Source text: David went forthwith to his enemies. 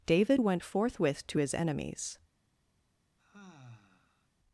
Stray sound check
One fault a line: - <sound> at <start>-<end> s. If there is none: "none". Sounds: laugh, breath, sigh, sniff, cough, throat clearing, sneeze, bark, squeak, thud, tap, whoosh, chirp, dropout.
- sigh at 3.2-4.3 s